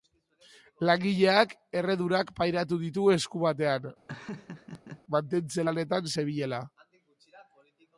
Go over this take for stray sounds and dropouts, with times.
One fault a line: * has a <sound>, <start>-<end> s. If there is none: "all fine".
* has a laugh, 4.1-5.0 s